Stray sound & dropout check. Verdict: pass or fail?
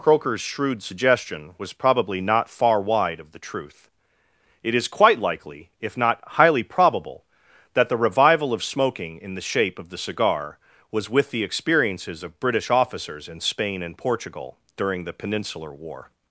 pass